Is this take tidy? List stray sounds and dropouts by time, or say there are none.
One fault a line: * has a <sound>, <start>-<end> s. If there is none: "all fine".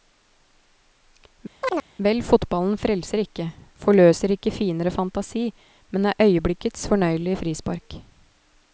* has a chirp, 1.6-1.9 s